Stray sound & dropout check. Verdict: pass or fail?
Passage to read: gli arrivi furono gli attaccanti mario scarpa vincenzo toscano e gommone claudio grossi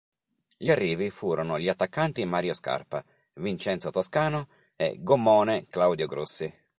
pass